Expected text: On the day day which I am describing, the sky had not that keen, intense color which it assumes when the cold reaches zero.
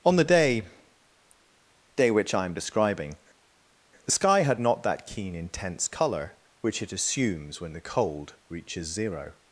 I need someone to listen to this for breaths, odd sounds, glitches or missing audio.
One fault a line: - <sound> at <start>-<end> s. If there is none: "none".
none